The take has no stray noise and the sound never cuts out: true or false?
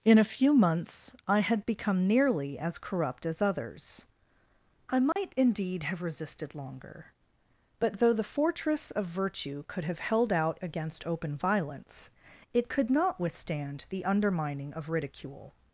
false